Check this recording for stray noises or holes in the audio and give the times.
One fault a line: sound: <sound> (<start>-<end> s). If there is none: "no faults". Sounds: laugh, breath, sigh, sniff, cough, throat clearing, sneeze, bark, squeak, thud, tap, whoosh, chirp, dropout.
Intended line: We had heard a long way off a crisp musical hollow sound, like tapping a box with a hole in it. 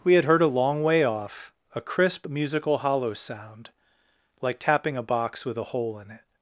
no faults